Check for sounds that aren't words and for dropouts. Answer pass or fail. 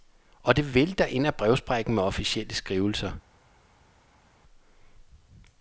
pass